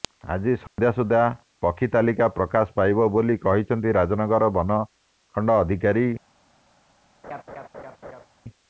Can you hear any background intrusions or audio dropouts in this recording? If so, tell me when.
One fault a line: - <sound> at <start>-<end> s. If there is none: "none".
- dropout at 0.7-0.8 s
- laugh at 7.2-8.3 s